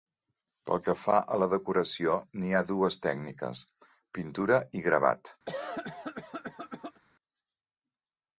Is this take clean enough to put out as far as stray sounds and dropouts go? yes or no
no